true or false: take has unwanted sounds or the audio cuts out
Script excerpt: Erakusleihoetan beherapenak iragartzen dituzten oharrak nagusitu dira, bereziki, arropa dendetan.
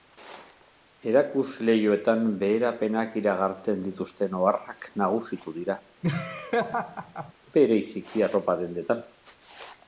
true